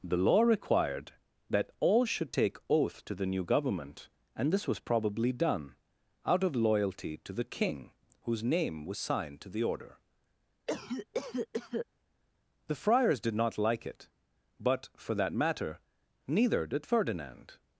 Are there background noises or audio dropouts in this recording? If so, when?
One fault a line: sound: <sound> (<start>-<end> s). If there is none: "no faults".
sound: cough (10.7-11.9 s)